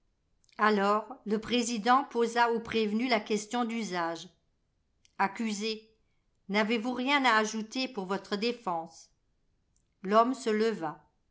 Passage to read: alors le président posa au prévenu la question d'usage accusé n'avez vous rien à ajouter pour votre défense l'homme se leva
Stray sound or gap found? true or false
false